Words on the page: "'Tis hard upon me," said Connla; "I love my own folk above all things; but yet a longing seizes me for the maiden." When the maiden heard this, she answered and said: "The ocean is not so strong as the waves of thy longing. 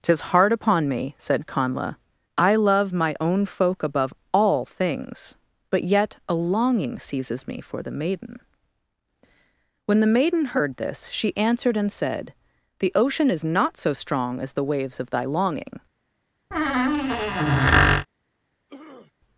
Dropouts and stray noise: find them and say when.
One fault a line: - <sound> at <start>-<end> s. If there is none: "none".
- squeak at 16.5-18.1 s
- throat clearing at 18.7-19.1 s